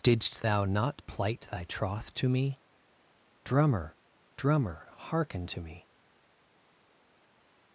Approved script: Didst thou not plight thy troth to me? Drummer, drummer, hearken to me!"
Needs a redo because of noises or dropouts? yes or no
no